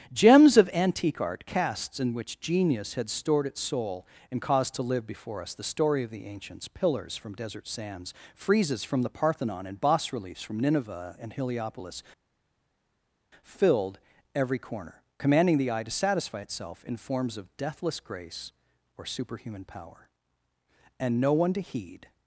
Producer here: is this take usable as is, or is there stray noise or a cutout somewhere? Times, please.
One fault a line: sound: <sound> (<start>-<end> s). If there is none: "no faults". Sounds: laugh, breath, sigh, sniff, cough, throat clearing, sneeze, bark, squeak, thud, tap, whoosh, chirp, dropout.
no faults